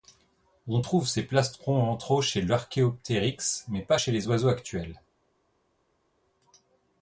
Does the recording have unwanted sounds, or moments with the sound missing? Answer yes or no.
no